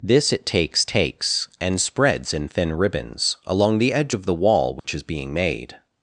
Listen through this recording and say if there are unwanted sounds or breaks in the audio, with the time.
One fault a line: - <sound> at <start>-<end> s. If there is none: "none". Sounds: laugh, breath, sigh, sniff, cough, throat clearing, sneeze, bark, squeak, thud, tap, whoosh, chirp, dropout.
- dropout at 4.8-4.8 s